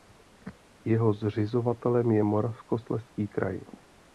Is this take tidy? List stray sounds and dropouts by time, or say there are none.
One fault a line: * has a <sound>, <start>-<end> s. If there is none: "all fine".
all fine